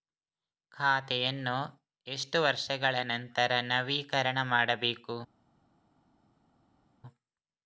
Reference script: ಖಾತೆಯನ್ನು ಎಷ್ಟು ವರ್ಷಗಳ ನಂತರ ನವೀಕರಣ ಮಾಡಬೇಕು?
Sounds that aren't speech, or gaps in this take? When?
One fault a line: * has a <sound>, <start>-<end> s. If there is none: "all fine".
all fine